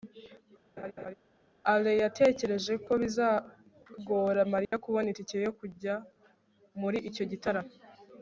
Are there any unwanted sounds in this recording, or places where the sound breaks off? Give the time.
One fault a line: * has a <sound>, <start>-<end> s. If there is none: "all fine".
* has a laugh, 0.8-1.1 s
* has a dropout, 4.7-4.7 s